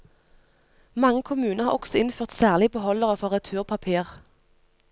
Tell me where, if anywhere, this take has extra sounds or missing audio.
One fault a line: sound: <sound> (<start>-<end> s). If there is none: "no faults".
no faults